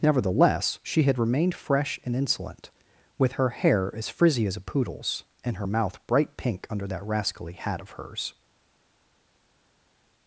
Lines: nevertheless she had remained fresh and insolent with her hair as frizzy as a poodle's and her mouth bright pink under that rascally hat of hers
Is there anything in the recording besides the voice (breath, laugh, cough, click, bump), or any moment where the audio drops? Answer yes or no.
no